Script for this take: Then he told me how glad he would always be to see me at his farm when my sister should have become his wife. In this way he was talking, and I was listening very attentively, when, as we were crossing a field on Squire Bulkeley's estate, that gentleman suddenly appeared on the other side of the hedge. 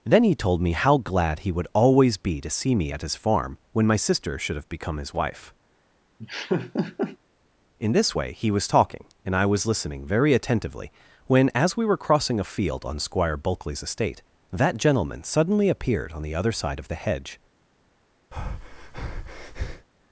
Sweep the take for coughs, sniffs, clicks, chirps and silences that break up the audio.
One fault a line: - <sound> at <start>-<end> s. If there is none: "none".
- laugh at 6.2-7.2 s
- breath at 18.3-19.9 s